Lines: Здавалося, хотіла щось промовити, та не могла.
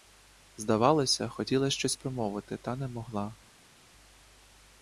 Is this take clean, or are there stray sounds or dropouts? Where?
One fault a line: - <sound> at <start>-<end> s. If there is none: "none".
none